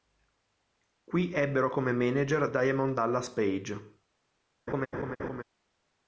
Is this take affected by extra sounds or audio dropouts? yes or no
yes